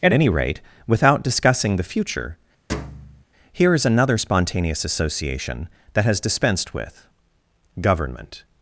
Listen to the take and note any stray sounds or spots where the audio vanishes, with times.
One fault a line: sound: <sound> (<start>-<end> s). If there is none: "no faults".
sound: thud (2.7-3.2 s)